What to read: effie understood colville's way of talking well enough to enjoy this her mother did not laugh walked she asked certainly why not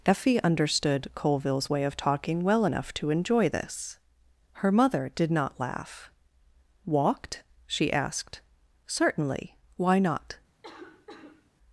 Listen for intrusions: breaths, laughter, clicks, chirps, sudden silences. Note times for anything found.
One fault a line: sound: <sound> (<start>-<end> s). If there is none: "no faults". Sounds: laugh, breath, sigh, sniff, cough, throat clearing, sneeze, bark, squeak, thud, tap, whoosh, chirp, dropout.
sound: cough (10.6-11.5 s)